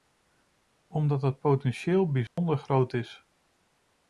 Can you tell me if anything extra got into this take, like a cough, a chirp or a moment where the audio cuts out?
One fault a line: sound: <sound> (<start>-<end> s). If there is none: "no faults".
sound: dropout (2.3-2.4 s)